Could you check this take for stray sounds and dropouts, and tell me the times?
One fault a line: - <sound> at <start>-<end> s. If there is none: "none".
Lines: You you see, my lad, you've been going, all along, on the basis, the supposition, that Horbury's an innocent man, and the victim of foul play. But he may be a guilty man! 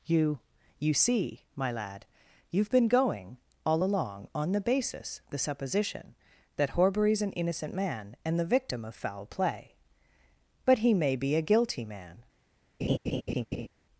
- laugh at 12.8-13.7 s